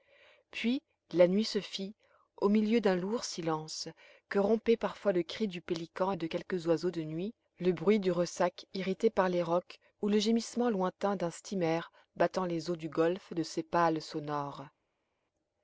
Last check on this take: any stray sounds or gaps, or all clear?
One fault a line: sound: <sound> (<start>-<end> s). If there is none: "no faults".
no faults